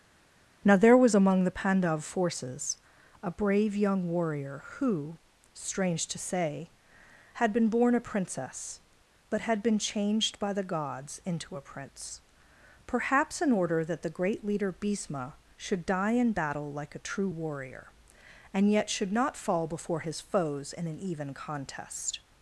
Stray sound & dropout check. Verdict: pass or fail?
pass